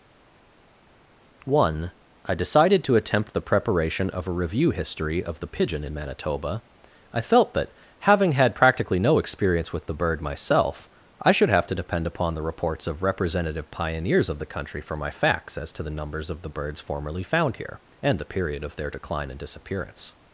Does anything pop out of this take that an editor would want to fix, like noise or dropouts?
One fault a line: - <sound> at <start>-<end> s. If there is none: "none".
none